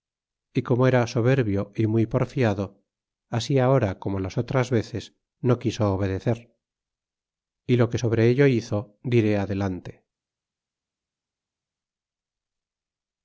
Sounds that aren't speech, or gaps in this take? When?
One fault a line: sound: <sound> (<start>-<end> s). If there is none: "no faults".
no faults